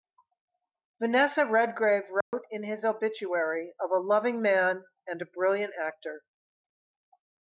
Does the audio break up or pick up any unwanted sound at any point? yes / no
yes